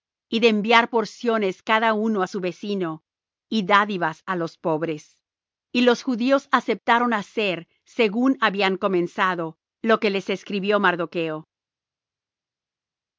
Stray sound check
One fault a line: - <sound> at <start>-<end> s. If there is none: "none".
none